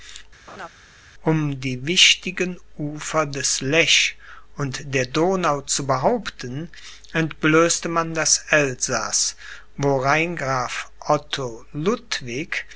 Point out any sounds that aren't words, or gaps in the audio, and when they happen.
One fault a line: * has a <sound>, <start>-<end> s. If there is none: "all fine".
* has a laugh, 0.5-0.7 s